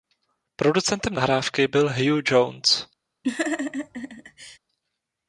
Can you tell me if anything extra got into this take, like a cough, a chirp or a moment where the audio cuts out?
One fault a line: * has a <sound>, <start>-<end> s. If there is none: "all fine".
* has a laugh, 3.2-4.6 s